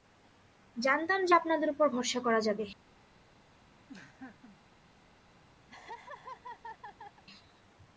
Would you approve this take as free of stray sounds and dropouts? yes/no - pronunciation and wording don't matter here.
no